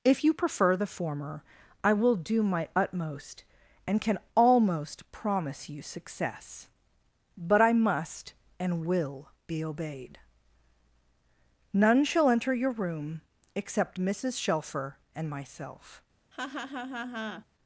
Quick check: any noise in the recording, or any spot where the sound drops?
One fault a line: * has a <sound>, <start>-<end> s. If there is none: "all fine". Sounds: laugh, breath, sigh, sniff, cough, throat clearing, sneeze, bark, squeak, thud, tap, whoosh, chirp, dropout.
* has a laugh, 16.3-17.5 s